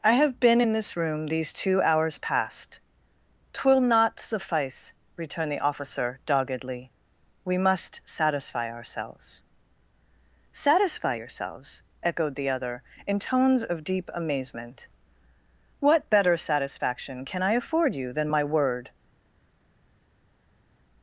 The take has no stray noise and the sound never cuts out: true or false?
true